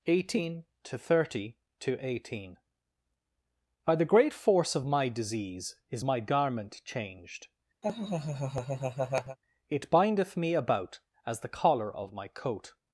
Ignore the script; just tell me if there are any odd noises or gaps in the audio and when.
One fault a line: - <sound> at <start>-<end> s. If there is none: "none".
- laugh at 7.8-9.4 s